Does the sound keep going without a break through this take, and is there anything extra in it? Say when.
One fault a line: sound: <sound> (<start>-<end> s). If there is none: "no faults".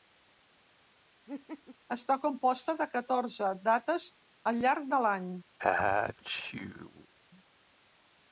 sound: laugh (1.3-1.8 s)
sound: sneeze (5.6-7.1 s)